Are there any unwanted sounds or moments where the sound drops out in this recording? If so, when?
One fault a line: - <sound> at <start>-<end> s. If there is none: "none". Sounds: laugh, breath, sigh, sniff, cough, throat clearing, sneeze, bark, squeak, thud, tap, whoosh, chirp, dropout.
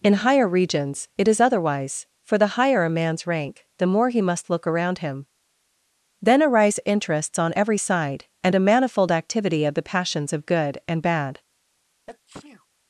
- sneeze at 12.1-12.7 s